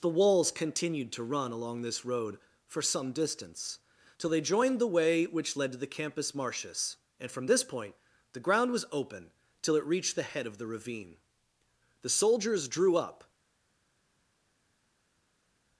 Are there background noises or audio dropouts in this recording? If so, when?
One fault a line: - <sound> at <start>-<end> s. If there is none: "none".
none